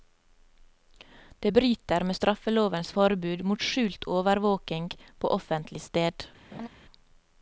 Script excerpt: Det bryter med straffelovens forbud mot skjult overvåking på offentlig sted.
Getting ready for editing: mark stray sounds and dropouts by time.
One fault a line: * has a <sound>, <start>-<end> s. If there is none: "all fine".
* has a laugh, 6.5-6.7 s